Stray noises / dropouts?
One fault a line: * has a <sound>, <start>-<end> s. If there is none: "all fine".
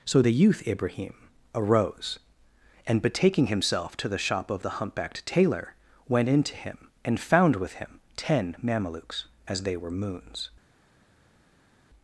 all fine